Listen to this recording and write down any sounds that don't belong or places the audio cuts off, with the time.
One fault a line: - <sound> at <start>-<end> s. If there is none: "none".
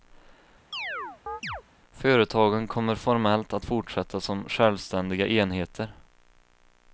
- chirp at 0.7-1.6 s